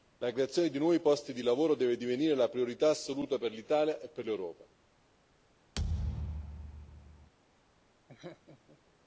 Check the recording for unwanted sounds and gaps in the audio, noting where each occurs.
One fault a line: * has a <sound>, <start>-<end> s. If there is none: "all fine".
* has a thud, 5.8-7.3 s
* has a laugh, 8.1-8.8 s